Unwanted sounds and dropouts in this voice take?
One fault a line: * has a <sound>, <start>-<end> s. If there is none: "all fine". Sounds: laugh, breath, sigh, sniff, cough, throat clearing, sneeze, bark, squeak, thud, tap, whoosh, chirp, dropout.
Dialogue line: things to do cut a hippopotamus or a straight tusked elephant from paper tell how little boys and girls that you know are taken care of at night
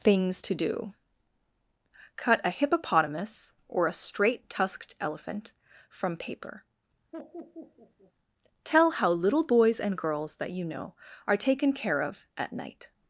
* has a laugh, 7.1-8.1 s